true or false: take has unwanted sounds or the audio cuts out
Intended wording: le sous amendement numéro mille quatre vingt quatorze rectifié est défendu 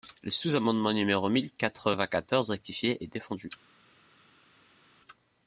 false